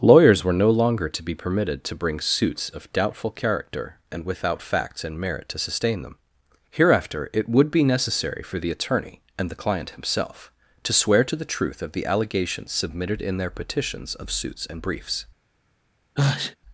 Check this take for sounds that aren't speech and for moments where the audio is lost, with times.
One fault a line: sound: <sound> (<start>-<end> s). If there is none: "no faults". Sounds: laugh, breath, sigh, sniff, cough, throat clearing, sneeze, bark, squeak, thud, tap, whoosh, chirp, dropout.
sound: sneeze (16.2-16.6 s)